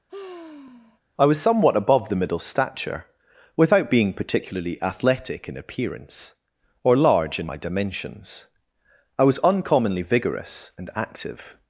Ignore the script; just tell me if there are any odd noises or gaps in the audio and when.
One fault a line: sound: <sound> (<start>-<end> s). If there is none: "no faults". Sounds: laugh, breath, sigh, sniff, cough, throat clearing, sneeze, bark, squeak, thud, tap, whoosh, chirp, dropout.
sound: sigh (0.1-1.0 s)